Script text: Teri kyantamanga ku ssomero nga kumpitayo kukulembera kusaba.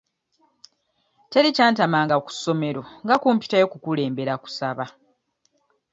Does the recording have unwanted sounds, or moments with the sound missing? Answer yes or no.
no